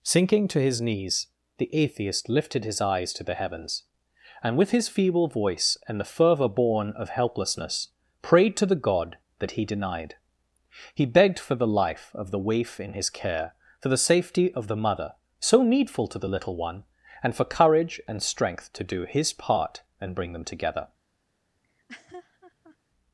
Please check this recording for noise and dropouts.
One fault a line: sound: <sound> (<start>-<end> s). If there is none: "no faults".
sound: laugh (21.6-22.8 s)